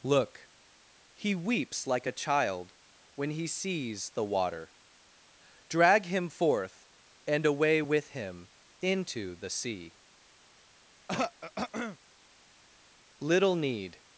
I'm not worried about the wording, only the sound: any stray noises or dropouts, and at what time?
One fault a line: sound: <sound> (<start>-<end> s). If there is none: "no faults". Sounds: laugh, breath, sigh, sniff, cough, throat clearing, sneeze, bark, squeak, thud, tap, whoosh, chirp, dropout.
sound: throat clearing (11.1-12.0 s)